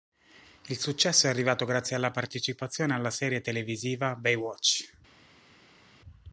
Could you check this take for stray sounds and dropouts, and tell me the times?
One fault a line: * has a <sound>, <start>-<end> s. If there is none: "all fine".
all fine